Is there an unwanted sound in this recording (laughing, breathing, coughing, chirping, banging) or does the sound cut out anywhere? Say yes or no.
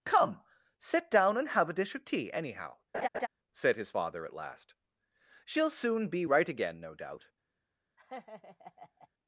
yes